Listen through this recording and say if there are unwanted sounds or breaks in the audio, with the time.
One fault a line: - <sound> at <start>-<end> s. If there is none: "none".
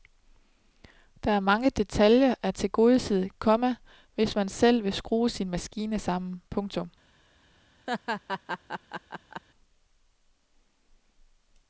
- laugh at 7.9-9.4 s